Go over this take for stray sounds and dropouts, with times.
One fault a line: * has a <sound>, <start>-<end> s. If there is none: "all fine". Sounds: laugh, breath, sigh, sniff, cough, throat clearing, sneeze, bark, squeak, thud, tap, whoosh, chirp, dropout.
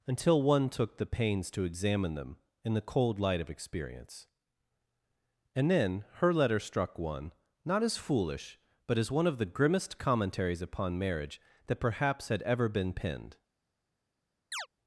* has a chirp, 14.5-14.7 s